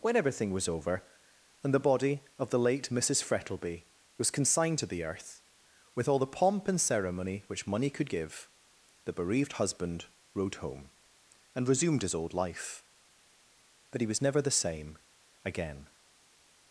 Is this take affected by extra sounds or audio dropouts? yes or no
no